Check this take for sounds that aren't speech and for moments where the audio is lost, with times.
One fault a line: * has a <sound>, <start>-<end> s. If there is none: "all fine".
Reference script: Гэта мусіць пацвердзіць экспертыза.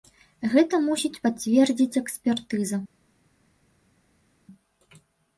all fine